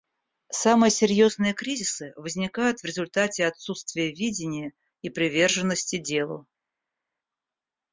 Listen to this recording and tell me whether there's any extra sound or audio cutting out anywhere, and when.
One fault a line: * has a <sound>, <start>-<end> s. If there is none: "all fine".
all fine